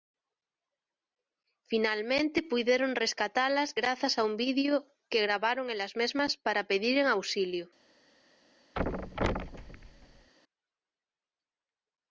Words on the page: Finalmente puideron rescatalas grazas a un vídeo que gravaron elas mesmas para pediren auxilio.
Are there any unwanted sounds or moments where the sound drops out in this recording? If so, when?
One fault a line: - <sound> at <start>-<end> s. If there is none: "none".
- thud at 8.8-10.3 s